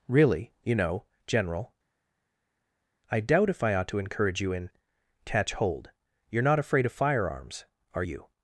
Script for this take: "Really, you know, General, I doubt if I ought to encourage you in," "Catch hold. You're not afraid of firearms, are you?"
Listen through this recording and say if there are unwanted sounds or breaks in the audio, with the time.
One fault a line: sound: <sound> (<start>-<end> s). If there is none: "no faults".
no faults